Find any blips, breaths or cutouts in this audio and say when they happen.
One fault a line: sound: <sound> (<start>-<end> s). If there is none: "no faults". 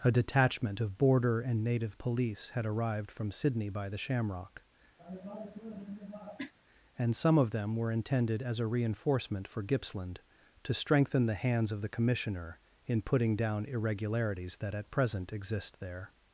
sound: cough (5.0-6.5 s)